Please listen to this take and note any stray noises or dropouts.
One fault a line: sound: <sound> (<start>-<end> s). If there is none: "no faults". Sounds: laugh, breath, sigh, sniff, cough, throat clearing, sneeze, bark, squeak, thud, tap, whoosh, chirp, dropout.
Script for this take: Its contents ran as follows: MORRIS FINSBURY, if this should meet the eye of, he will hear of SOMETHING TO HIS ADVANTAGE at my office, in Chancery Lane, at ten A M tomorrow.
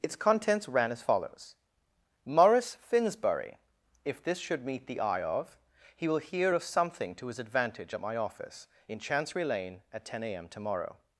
no faults